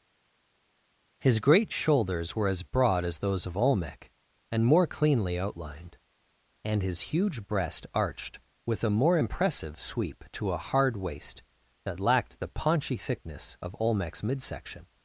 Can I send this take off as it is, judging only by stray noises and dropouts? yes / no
yes